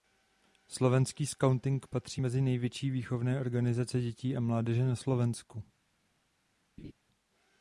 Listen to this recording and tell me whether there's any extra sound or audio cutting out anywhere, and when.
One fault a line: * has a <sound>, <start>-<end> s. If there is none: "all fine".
* has a laugh, 6.8-6.9 s